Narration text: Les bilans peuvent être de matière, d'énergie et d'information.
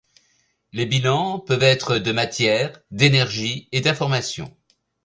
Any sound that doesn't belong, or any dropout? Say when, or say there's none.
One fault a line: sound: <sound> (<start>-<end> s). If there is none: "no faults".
no faults